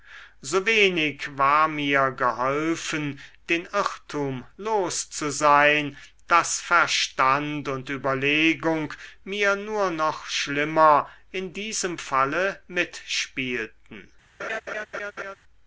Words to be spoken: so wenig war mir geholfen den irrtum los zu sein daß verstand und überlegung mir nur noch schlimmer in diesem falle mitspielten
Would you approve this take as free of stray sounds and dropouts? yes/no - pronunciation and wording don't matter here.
no